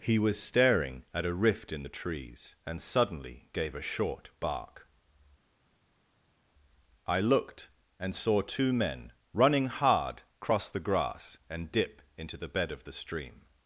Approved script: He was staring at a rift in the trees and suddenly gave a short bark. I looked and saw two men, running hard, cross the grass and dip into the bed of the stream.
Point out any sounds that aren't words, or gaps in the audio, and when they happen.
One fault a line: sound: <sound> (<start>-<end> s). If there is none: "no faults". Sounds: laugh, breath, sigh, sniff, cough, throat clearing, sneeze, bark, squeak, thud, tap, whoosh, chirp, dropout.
no faults